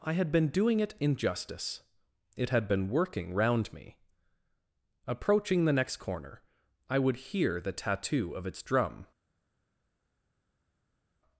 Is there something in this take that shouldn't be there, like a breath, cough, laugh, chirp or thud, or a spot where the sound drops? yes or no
no